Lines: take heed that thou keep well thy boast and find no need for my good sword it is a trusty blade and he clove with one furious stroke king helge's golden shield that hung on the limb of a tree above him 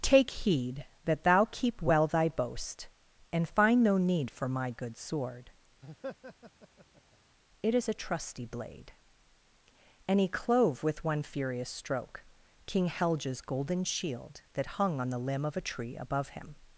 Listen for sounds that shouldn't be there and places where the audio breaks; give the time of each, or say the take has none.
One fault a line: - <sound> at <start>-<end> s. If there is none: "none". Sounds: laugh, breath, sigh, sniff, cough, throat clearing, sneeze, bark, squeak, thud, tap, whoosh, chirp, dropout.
- laugh at 5.8-7.2 s